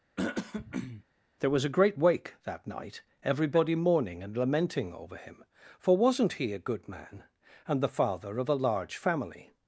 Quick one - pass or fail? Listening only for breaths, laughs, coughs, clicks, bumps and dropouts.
fail